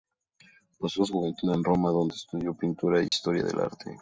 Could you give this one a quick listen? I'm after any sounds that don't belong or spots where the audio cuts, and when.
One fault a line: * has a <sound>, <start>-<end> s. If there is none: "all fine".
* has a dropout, 3.1-3.1 s